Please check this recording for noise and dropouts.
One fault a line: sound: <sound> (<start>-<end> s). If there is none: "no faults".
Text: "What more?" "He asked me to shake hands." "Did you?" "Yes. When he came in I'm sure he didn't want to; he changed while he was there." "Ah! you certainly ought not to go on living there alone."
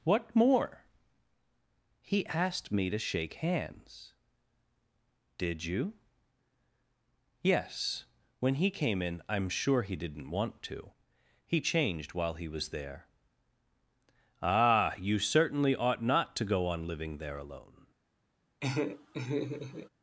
sound: laugh (18.6-19.9 s)